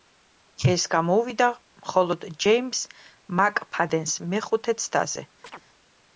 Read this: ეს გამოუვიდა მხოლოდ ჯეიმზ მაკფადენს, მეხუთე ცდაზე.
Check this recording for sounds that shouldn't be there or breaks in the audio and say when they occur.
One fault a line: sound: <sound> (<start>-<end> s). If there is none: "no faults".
sound: chirp (5.4-5.6 s)